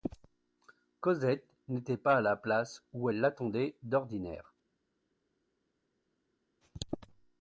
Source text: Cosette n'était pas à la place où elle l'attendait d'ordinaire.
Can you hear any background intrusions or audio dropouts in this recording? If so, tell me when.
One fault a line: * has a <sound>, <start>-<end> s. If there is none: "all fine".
all fine